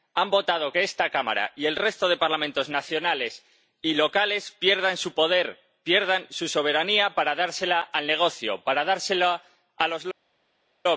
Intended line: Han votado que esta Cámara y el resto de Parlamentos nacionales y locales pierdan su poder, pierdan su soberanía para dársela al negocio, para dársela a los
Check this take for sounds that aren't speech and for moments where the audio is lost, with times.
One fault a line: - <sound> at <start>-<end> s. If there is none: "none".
none